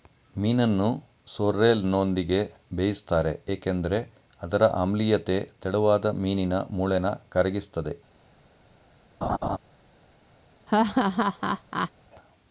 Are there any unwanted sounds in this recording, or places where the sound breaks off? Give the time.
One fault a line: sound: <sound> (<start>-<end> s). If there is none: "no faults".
sound: laugh (9.2-9.6 s)
sound: laugh (10.7-11.9 s)